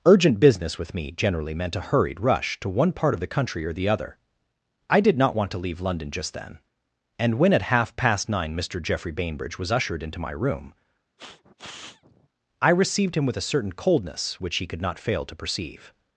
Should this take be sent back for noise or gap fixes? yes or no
yes